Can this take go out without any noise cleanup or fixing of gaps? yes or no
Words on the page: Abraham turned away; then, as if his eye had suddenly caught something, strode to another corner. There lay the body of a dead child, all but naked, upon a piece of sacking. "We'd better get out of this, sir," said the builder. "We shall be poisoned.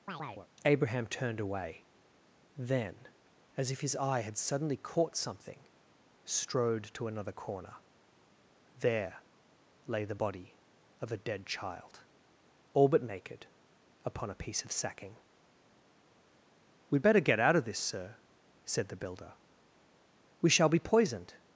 no